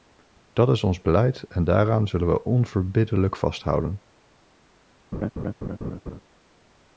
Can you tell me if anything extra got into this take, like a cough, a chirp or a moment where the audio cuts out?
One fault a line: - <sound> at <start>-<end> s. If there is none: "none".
- laugh at 5.1-6.2 s